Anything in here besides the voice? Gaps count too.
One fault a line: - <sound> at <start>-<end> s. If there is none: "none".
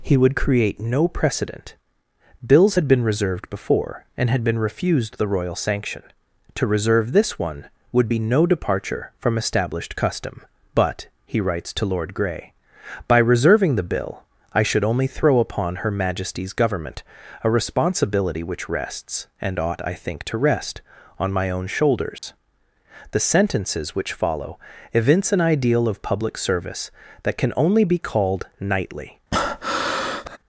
- dropout at 22.2-22.2 s
- breath at 29.3-30.4 s